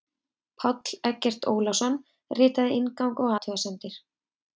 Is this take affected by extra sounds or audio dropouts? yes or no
no